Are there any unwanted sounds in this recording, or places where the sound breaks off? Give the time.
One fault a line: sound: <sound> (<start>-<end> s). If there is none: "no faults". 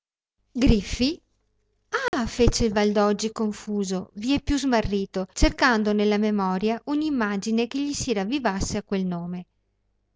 sound: dropout (2.1-2.1 s)